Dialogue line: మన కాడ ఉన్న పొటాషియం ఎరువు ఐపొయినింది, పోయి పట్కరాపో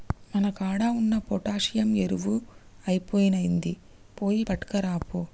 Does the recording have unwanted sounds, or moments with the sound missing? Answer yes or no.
no